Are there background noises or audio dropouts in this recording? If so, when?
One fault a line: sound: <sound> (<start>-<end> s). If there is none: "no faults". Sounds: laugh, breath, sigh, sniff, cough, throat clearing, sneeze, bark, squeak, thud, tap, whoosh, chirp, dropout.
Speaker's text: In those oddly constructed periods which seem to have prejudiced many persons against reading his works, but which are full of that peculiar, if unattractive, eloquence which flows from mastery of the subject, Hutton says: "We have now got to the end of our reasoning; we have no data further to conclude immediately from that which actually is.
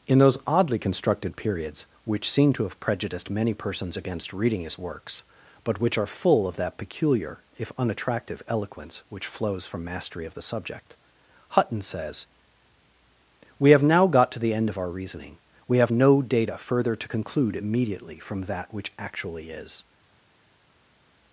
no faults